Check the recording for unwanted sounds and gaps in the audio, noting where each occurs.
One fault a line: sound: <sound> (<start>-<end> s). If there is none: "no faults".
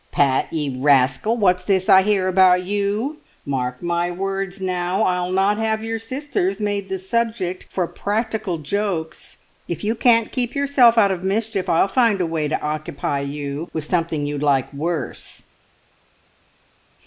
no faults